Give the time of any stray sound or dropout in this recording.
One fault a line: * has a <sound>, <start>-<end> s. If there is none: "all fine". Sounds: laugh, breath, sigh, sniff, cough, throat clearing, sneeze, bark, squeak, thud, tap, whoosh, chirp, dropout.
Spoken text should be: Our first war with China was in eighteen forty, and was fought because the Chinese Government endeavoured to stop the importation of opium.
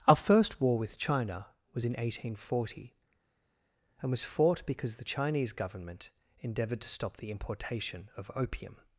all fine